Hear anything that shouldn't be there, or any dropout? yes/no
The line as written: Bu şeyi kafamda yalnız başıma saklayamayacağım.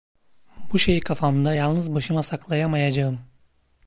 no